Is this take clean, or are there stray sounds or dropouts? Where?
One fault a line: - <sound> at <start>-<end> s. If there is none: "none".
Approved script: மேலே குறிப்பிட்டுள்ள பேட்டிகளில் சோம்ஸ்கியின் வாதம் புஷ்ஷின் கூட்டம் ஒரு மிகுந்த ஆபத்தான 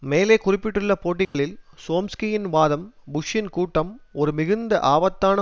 - dropout at 1.2-1.3 s